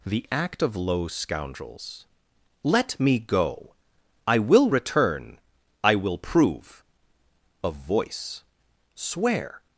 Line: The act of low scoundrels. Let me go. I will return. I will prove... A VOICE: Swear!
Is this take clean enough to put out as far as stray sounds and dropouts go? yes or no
yes